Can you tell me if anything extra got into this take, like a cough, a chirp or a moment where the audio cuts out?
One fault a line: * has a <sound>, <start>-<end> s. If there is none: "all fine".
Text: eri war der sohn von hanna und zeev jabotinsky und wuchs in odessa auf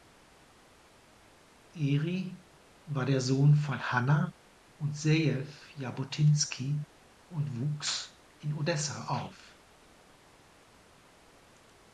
all fine